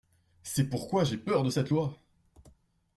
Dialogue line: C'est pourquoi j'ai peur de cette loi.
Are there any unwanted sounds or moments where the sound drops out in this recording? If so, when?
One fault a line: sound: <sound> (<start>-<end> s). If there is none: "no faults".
no faults